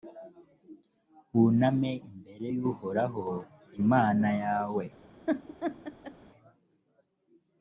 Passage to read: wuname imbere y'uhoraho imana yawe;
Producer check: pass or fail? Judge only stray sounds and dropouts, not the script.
fail